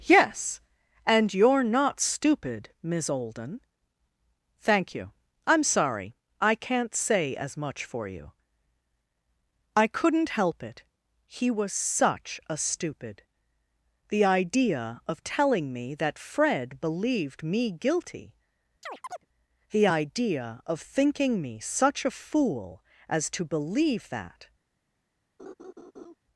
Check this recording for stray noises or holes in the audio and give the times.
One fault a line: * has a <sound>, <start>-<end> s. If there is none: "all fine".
* has a chirp, 18.8-19.3 s
* has a laugh, 25.4-26.2 s